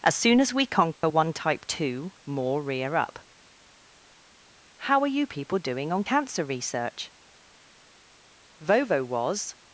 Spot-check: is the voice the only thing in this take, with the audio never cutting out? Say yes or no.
no